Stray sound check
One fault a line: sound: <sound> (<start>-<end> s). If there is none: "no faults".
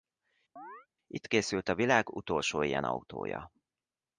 sound: chirp (0.6-0.9 s)